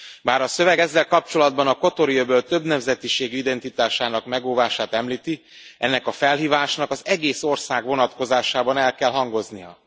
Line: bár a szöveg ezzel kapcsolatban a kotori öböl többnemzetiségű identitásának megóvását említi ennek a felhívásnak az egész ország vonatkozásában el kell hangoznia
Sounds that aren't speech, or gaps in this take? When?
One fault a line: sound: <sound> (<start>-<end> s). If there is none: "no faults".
no faults